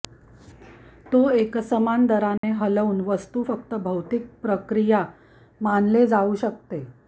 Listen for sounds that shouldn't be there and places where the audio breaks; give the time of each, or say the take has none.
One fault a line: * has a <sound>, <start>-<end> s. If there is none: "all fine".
* has a dropout, 2.4-2.4 s